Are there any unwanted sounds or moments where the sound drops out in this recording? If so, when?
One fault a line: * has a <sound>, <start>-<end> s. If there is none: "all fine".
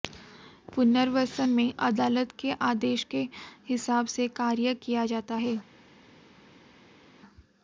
all fine